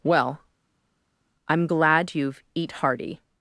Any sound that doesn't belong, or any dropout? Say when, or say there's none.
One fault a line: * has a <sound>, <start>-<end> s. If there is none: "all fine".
all fine